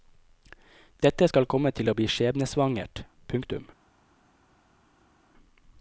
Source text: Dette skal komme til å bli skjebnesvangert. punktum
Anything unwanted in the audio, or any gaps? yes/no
no